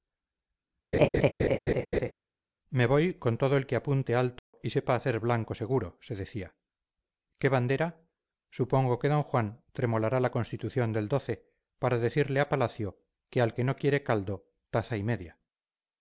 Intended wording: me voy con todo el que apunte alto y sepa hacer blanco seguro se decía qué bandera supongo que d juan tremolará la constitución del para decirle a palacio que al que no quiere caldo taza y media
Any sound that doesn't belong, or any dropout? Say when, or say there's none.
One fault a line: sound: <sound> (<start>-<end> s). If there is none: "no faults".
sound: laugh (0.9-2.1 s)
sound: dropout (4.4-4.5 s)